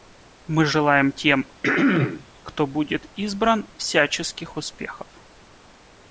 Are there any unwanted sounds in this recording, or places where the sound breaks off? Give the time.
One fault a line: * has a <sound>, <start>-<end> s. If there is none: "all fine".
* has a throat clearing, 1.6-2.3 s